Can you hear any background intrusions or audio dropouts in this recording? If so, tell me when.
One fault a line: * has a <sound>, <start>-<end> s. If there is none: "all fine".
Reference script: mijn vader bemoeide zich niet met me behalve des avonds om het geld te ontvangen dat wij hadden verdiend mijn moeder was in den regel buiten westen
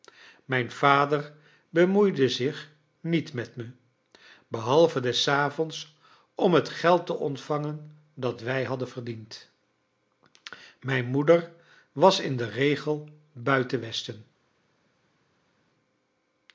all fine